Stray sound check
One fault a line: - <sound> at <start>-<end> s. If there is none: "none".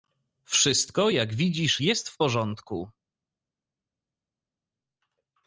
none